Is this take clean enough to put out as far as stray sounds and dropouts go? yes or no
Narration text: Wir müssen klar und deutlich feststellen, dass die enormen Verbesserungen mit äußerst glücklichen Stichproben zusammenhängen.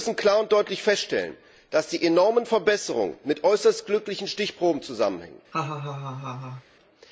no